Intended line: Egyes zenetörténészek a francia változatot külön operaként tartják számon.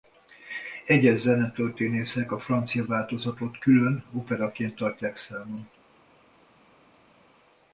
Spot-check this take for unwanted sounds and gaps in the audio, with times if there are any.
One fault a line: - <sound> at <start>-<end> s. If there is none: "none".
none